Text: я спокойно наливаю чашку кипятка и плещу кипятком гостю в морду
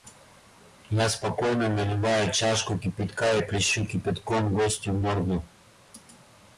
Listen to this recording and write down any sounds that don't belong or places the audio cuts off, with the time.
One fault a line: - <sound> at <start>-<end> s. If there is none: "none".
none